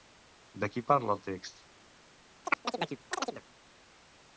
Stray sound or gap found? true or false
true